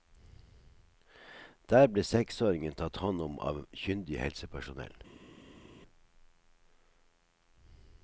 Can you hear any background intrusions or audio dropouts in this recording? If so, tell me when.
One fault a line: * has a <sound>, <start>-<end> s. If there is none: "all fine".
all fine